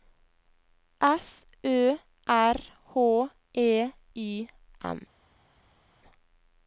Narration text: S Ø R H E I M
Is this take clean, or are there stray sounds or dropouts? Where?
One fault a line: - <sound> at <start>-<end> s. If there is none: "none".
none